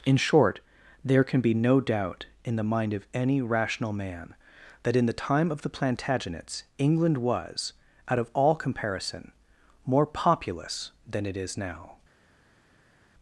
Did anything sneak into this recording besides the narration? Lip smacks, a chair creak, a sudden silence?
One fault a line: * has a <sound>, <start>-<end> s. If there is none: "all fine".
all fine